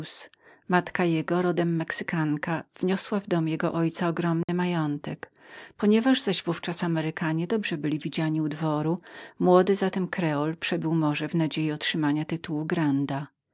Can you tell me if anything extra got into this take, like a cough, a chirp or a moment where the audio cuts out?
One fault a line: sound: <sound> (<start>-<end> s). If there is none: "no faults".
sound: dropout (4.4-4.5 s)